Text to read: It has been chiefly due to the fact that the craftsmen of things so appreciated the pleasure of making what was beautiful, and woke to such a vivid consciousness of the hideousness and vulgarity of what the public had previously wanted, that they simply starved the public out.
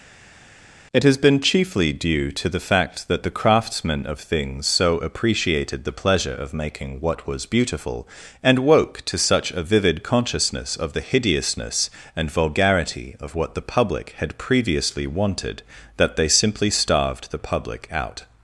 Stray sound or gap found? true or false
false